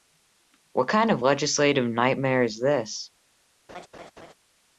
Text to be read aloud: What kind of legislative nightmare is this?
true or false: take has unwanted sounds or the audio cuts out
true